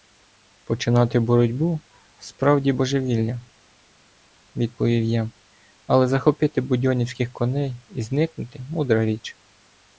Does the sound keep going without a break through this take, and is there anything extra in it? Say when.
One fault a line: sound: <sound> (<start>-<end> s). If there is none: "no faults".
no faults